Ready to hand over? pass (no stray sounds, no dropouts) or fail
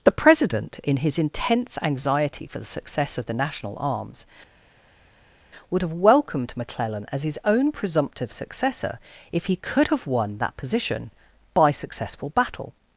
pass